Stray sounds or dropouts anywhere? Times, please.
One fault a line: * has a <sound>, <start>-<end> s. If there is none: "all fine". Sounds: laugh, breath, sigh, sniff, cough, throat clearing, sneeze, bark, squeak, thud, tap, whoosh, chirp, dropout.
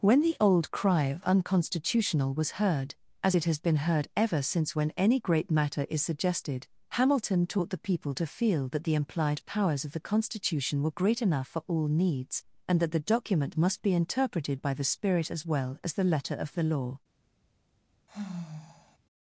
* has a sigh, 18.1-19.0 s